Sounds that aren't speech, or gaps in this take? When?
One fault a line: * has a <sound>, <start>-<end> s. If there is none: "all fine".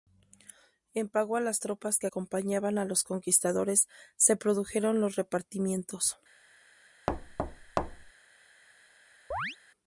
* has a thud, 7.1-8.1 s
* has a chirp, 9.3-9.6 s